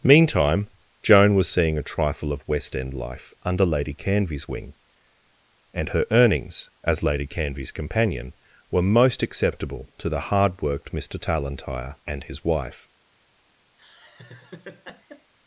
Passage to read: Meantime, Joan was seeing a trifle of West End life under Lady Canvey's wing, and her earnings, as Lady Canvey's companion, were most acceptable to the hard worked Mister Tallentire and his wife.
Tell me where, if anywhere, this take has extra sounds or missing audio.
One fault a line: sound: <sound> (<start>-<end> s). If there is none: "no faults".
sound: laugh (13.8-15.3 s)